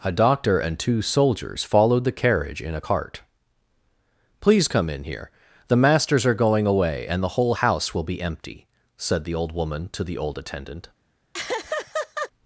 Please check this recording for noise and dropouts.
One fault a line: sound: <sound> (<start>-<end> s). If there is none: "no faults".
sound: laugh (11.3-12.3 s)